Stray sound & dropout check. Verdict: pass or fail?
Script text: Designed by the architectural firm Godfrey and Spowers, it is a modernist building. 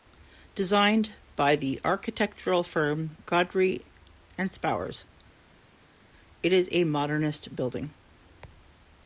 pass